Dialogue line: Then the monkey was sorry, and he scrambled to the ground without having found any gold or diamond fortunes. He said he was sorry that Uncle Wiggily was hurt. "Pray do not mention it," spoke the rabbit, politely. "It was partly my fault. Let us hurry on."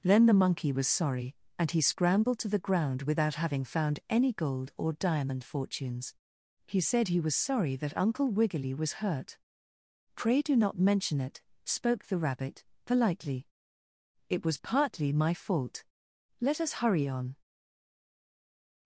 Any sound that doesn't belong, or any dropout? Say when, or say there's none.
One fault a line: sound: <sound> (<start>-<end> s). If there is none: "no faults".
no faults